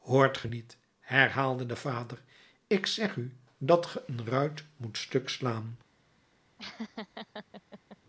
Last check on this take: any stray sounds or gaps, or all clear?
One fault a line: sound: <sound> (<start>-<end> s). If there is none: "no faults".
sound: laugh (6.6-8.0 s)